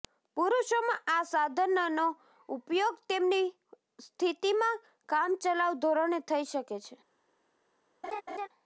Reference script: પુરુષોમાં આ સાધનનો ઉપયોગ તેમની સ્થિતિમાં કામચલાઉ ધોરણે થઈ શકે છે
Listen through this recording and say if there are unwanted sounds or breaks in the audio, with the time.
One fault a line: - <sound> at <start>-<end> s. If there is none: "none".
- laugh at 8.0-8.5 s